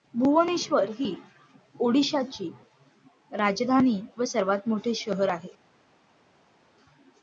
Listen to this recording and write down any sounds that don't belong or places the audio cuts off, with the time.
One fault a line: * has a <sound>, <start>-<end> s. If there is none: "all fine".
all fine